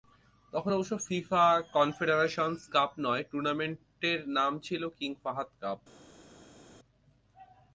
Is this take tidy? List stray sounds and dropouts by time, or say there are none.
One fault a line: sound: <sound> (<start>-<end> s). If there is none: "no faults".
no faults